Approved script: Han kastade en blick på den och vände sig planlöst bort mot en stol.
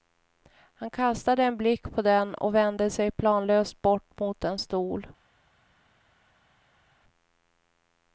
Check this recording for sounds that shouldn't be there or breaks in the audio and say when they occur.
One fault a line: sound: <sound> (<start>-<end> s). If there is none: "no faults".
no faults